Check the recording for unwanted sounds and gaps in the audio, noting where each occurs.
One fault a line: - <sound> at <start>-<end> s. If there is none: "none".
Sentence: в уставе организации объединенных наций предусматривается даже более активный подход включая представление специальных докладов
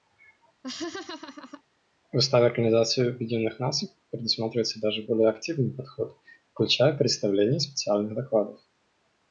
- laugh at 0.6-1.6 s